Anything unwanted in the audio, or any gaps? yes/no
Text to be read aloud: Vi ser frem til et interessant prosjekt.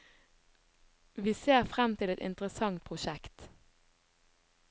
no